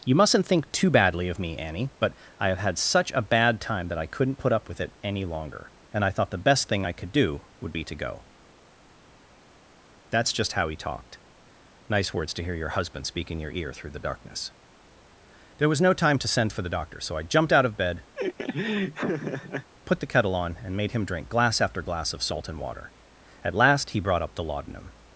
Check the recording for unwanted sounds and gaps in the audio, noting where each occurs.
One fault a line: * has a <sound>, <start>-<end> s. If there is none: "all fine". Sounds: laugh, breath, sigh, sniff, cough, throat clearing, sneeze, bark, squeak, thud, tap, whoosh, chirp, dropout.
* has a laugh, 18.2-19.7 s